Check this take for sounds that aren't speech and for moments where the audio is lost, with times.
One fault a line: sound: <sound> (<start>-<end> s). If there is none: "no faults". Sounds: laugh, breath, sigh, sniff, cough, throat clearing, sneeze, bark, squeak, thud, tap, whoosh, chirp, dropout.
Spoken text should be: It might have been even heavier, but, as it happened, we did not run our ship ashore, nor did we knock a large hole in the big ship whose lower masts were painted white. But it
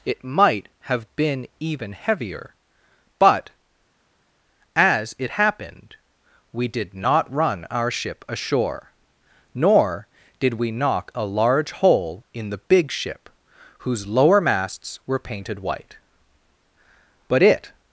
no faults